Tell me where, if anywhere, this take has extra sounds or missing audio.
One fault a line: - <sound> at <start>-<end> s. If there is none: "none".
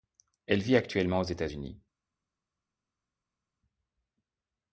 none